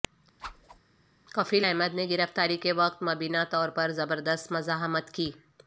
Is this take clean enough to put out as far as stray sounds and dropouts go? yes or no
no